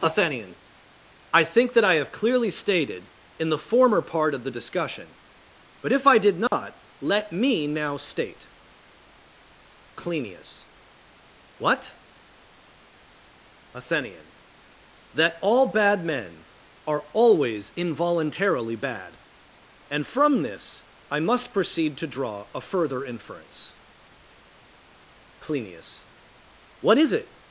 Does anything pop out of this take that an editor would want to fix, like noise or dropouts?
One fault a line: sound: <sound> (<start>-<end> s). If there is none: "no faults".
sound: dropout (6.5-6.5 s)